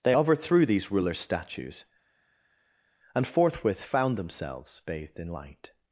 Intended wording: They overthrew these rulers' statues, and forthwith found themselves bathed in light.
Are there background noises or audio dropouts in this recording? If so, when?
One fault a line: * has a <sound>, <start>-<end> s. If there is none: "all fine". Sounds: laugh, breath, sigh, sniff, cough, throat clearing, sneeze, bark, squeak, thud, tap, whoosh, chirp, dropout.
all fine